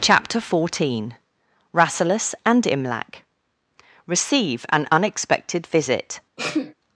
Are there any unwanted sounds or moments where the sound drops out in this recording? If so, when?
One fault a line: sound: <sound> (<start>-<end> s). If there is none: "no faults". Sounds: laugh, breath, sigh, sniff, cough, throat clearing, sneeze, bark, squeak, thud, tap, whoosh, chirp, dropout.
sound: sneeze (6.4-6.7 s)